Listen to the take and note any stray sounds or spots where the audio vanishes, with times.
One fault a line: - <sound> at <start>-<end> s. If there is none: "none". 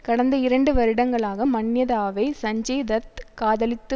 none